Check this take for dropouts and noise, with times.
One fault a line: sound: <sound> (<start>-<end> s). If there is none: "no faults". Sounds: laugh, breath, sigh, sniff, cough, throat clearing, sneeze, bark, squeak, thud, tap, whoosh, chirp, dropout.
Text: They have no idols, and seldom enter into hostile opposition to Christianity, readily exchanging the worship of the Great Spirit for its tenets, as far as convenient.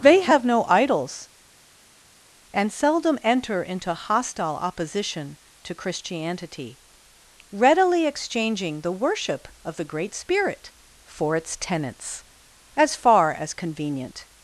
no faults